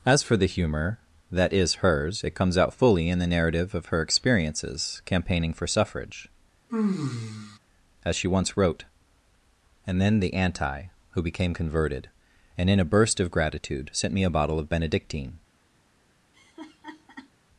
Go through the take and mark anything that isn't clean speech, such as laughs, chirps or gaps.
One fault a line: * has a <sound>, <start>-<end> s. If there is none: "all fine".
* has a sigh, 6.7-7.6 s
* has a laugh, 16.3-17.3 s